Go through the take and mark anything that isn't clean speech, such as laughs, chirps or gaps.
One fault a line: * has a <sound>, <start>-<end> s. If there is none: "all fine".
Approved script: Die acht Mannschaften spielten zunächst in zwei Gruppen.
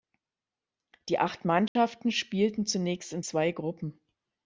* has a dropout, 1.7-1.8 s